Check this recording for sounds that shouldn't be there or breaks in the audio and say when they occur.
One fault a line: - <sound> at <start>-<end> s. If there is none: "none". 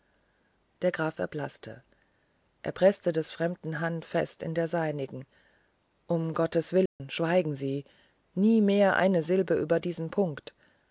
- dropout at 6.9-7.0 s